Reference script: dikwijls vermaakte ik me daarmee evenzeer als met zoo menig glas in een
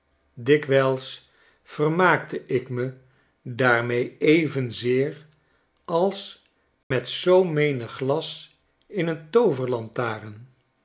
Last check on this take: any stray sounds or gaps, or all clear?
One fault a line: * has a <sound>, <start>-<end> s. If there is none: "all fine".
* has a dropout, 6.8-6.9 s